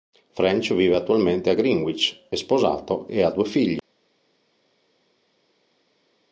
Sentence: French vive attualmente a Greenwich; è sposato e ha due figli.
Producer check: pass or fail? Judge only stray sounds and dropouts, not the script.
pass